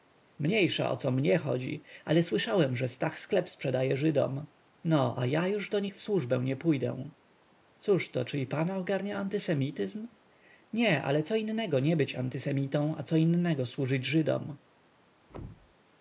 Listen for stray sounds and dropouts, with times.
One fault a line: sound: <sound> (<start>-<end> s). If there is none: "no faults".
sound: thud (15.3-15.8 s)